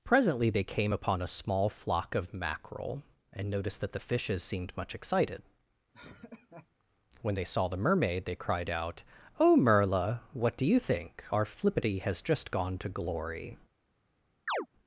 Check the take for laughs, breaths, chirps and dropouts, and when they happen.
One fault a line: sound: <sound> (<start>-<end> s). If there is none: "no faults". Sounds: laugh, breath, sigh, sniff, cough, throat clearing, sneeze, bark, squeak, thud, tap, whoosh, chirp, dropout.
sound: laugh (5.9-6.7 s)
sound: chirp (14.5-14.7 s)